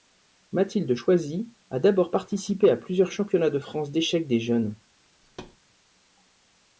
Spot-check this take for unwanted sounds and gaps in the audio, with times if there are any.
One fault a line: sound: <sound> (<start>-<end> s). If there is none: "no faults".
sound: thud (5.2-5.6 s)